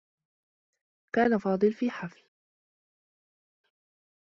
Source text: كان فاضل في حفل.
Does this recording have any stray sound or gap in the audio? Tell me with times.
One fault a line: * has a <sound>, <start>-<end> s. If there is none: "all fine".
all fine